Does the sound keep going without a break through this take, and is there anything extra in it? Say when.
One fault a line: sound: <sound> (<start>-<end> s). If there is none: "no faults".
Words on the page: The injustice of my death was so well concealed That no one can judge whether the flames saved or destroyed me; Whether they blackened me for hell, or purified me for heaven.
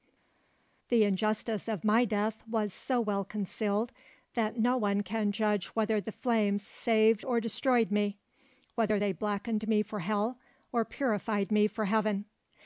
no faults